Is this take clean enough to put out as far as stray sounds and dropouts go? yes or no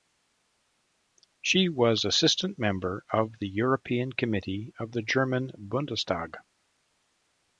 yes